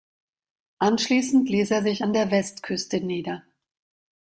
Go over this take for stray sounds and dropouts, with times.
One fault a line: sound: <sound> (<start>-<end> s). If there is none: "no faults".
no faults